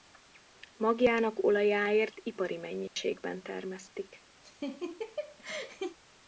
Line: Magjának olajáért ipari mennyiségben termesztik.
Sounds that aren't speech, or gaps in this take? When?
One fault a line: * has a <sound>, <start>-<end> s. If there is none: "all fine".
* has a dropout, 2.9-3.0 s
* has a laugh, 4.4-6.0 s